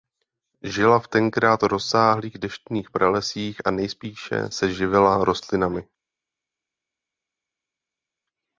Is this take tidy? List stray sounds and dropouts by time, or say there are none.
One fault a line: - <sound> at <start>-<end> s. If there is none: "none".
none